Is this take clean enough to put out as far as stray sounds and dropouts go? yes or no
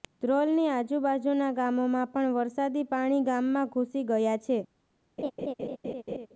no